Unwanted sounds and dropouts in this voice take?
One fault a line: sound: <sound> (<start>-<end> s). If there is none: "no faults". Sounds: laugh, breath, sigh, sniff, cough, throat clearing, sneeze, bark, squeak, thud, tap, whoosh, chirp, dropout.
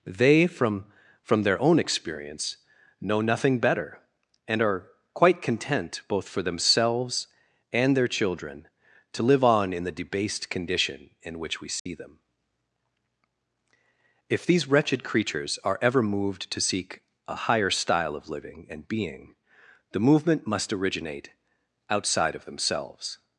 sound: dropout (11.8-11.9 s)